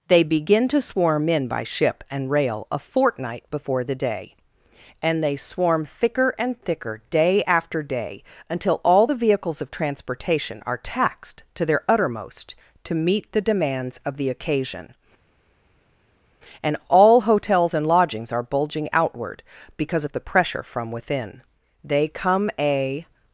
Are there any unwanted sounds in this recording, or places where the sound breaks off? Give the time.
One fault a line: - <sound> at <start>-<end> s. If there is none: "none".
none